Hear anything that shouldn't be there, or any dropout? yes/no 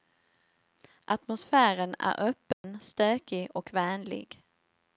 yes